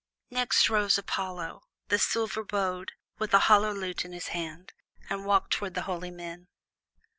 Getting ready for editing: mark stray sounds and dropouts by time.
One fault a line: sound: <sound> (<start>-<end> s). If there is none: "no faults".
no faults